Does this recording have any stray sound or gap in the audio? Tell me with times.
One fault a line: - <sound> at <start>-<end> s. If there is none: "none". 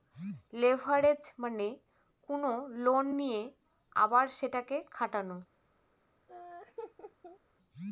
- laugh at 6.3-7.4 s